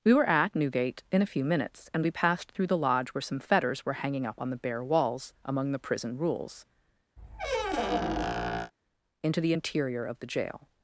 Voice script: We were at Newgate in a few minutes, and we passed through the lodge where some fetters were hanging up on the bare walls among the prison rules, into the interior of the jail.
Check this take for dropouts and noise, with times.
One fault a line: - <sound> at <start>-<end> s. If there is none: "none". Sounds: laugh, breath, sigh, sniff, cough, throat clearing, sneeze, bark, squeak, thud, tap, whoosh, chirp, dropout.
- squeak at 7.2-8.7 s